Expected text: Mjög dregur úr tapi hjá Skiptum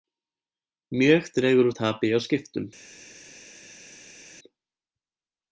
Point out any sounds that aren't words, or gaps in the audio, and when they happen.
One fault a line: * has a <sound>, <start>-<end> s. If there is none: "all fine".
all fine